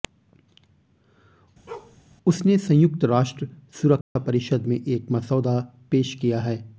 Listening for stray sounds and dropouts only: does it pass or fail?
fail